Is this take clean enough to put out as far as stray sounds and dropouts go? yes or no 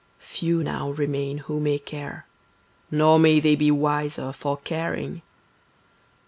yes